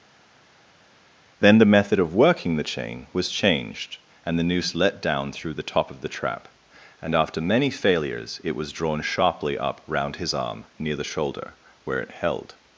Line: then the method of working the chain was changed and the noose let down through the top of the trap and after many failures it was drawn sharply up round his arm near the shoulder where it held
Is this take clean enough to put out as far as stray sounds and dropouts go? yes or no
yes